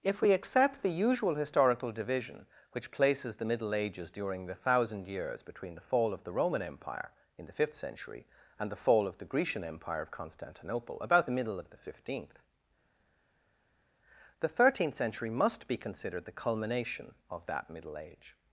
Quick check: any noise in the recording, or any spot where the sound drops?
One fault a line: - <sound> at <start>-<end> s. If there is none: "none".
none